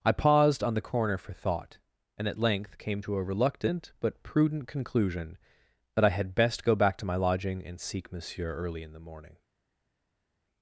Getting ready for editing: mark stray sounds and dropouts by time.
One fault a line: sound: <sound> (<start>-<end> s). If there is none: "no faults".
no faults